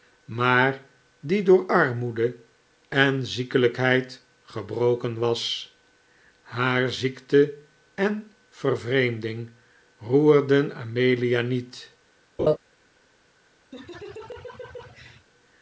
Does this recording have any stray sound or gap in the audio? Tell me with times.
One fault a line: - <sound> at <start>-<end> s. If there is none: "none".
- laugh at 12.4-12.6 s
- laugh at 13.7-15.3 s